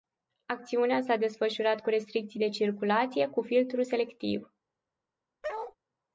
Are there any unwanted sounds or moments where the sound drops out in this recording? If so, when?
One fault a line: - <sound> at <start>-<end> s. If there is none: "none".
- bark at 5.4-5.8 s